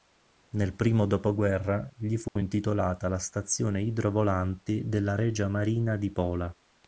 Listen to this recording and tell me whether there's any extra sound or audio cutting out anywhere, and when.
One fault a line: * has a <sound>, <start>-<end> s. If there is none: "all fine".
* has a dropout, 2.3-2.4 s